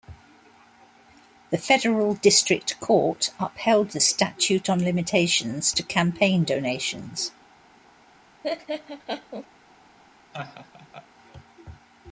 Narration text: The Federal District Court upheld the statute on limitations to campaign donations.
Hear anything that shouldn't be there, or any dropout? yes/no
yes